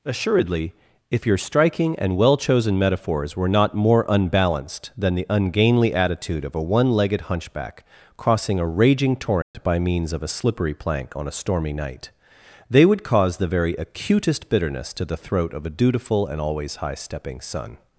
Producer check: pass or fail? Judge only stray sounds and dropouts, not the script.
fail